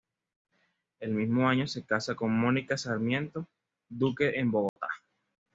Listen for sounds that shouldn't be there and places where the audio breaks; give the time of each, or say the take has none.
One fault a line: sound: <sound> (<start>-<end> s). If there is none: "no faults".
sound: dropout (4.7-4.8 s)